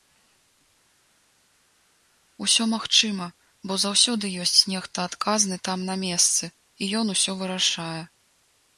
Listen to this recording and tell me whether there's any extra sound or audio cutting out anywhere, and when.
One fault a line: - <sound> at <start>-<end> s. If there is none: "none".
none